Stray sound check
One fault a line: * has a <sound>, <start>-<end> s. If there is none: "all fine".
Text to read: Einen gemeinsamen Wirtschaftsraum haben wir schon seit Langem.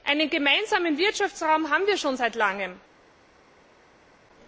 all fine